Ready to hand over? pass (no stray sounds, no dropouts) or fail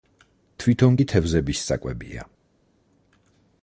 pass